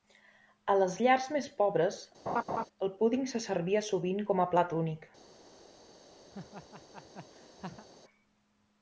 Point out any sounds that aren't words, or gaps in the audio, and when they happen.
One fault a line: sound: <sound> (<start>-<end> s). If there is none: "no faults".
sound: laugh (2.3-2.7 s)
sound: laugh (6.3-7.9 s)